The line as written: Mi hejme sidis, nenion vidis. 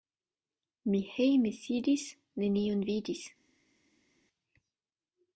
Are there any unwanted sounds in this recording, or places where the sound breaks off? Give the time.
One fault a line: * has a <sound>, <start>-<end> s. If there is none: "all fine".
all fine